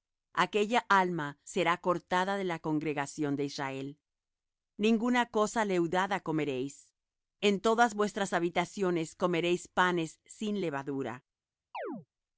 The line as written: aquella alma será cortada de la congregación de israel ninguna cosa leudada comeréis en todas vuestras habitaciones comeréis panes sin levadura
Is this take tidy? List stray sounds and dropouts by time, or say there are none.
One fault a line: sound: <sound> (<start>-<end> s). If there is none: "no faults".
sound: chirp (11.7-12.1 s)